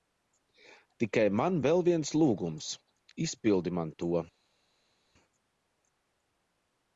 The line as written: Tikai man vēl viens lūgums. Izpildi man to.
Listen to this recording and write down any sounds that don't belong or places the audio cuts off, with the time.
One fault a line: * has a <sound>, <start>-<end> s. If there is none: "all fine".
all fine